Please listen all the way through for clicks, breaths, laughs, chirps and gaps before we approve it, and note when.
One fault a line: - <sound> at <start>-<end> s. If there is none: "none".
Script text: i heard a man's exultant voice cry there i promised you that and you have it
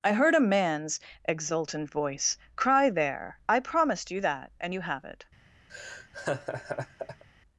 - laugh at 5.7-7.2 s